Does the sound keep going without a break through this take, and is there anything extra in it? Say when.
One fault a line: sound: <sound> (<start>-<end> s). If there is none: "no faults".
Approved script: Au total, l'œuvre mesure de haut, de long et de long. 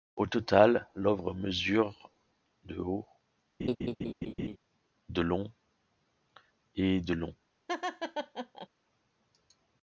sound: laugh (3.6-4.6 s)
sound: laugh (7.7-8.7 s)